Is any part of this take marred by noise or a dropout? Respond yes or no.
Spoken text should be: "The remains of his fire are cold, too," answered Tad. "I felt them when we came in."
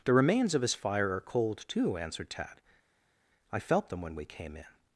no